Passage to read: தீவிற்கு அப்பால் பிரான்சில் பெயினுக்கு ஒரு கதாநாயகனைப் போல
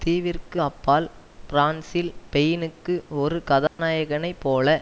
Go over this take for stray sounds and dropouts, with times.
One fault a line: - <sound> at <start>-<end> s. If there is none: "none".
- dropout at 3.7-3.8 s